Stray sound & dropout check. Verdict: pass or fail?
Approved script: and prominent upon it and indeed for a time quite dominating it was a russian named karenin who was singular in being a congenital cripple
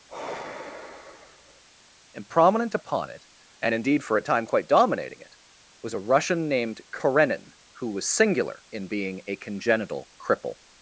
fail